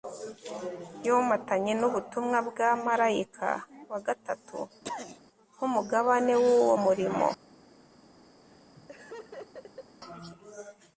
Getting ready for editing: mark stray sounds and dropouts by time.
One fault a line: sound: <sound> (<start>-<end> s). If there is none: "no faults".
sound: throat clearing (4.8-5.2 s)
sound: laugh (8.4-10.0 s)